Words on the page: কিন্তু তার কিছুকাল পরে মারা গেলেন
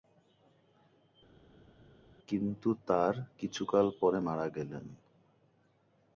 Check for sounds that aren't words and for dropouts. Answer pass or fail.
pass